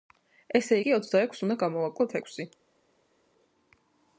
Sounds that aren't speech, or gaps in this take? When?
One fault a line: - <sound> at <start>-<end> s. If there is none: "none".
none